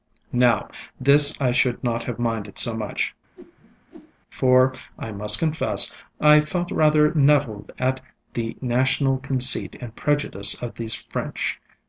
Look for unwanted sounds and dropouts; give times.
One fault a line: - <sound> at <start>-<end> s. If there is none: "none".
- whoosh at 3.4-4.1 s